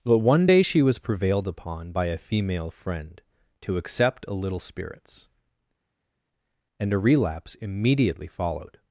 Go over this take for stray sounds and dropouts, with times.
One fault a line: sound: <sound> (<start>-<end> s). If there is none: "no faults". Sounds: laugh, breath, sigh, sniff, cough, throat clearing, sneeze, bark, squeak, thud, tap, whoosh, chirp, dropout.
no faults